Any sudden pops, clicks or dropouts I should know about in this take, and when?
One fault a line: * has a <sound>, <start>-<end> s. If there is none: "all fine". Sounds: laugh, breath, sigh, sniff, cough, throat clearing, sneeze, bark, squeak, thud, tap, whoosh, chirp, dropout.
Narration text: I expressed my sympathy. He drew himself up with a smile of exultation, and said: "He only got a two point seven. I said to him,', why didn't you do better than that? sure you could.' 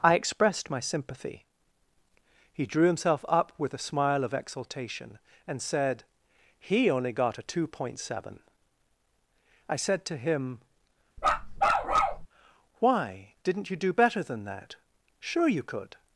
* has a bark, 11.2-12.3 s